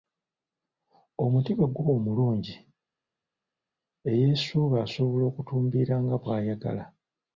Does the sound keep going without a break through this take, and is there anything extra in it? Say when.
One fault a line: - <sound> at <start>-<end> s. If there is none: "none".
none